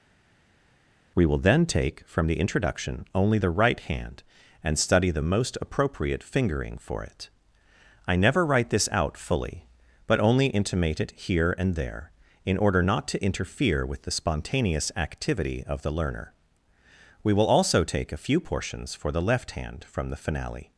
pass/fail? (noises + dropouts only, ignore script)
pass